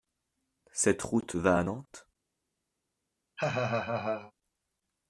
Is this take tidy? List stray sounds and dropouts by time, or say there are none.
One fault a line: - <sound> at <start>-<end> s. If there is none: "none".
- laugh at 3.4-4.3 s